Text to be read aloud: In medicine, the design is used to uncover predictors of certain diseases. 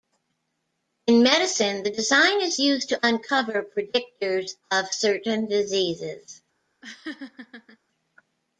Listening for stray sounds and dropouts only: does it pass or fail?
fail